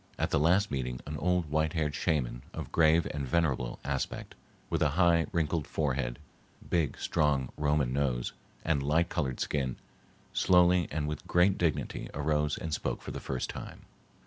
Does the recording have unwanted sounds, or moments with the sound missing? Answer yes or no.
no